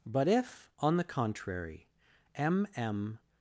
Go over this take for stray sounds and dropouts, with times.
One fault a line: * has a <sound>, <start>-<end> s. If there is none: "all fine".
all fine